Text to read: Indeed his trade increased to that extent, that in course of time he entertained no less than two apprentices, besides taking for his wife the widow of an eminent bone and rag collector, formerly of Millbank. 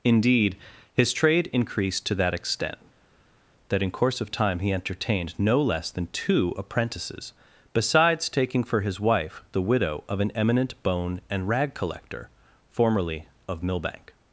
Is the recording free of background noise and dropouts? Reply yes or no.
yes